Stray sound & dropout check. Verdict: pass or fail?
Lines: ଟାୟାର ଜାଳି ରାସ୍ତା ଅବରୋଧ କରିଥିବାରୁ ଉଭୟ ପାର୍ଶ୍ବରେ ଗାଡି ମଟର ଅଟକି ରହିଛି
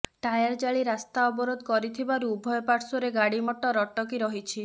pass